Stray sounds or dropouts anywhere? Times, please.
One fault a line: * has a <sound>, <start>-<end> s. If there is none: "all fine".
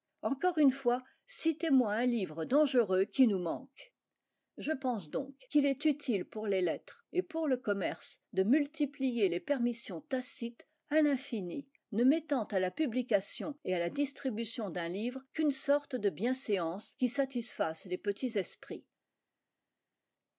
all fine